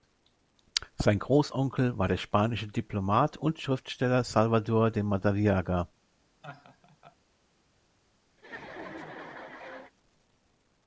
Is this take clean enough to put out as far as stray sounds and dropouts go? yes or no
no